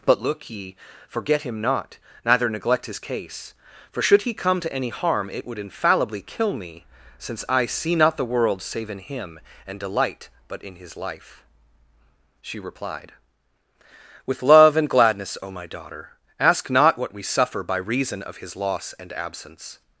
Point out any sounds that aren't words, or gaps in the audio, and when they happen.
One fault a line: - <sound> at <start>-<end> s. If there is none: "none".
none